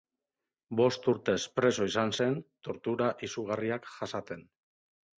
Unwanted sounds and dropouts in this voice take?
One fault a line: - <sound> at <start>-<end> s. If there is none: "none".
none